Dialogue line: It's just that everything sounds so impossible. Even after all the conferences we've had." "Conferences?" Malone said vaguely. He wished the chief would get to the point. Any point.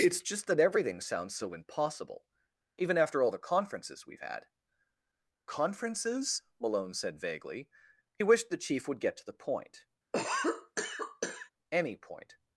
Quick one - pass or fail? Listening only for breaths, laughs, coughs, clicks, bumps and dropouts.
fail